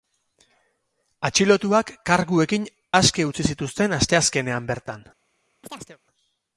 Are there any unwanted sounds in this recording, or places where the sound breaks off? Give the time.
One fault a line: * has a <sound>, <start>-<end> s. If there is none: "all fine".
* has a chirp, 5.6-6.0 s